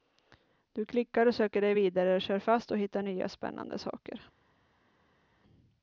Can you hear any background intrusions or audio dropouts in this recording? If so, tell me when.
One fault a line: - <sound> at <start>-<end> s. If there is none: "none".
none